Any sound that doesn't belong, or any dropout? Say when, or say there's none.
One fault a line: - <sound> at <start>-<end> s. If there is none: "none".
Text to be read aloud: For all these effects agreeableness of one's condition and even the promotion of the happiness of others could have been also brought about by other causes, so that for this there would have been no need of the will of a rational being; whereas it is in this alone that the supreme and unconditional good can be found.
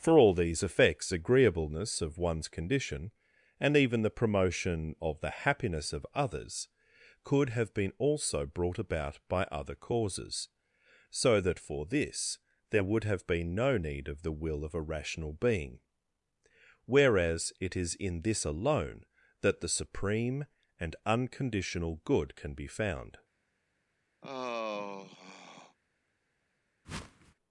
- sigh at 24.2-25.8 s
- whoosh at 26.8-27.3 s